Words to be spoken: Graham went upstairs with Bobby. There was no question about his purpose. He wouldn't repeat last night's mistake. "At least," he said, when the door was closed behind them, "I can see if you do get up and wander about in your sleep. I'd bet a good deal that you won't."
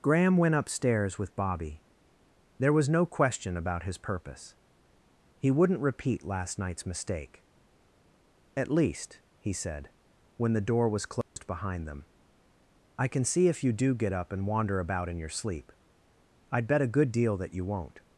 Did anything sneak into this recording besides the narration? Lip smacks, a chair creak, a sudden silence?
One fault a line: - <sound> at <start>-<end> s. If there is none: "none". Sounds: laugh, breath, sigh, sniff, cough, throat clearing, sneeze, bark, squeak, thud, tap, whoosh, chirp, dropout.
- dropout at 11.2-11.4 s